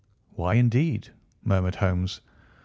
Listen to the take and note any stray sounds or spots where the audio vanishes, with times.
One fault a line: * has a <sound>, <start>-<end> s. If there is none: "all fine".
all fine